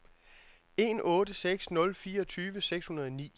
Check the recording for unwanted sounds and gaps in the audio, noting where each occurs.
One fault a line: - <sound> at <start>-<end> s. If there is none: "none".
none